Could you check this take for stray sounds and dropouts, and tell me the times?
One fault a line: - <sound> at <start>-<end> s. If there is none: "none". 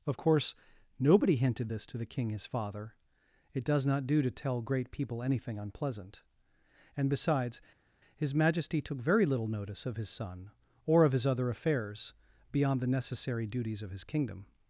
none